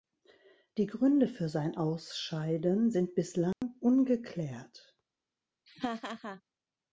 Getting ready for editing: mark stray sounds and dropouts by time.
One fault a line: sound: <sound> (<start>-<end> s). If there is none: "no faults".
sound: dropout (3.5-3.6 s)
sound: laugh (5.7-6.4 s)